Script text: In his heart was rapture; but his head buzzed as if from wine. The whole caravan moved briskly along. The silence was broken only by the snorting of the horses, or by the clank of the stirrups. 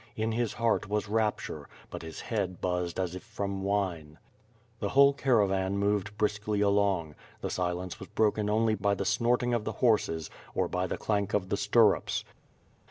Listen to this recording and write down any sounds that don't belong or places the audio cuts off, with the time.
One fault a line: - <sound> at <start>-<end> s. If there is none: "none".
none